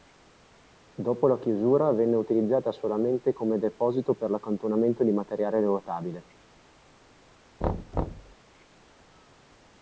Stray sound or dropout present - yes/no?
yes